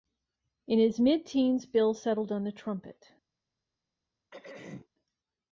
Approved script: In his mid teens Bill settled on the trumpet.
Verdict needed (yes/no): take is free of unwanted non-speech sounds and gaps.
no